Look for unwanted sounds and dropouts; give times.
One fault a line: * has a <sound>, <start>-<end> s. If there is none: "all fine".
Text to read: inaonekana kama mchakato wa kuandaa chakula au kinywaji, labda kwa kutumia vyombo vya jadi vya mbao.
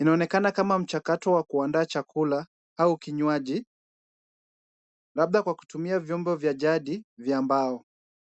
all fine